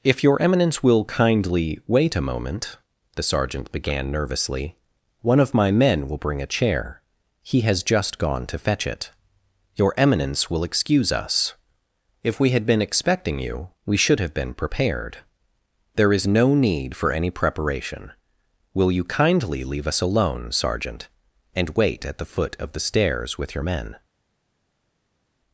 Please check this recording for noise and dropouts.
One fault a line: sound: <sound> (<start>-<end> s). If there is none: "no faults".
no faults